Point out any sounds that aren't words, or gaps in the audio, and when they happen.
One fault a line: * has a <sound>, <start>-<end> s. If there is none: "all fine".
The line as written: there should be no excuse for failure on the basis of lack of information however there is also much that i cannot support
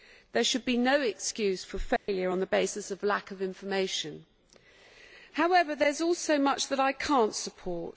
* has a dropout, 2.0-2.1 s